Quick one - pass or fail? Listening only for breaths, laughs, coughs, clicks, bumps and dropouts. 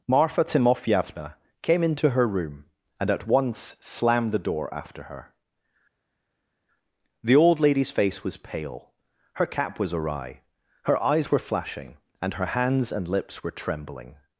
pass